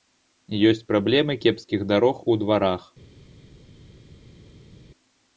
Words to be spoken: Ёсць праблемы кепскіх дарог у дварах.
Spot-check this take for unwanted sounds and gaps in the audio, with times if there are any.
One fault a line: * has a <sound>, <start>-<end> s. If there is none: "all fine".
all fine